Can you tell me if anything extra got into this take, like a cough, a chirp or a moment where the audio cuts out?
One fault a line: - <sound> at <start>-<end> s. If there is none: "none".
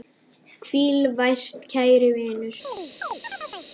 - chirp at 2.6-3.7 s